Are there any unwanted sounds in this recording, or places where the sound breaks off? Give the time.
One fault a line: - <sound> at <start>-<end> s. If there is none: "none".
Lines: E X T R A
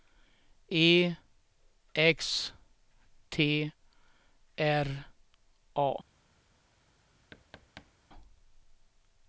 - thud at 7.3-7.9 s